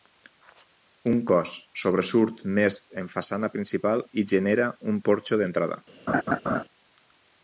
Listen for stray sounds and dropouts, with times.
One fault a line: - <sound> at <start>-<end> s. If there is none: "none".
- laugh at 6.1-6.6 s